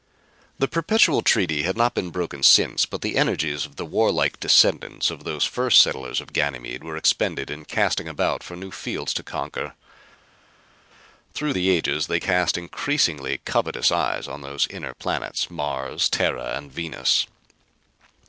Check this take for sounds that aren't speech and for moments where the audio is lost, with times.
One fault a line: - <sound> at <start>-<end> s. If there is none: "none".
none